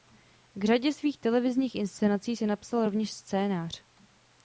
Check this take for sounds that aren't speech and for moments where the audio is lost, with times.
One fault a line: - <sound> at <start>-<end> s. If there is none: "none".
none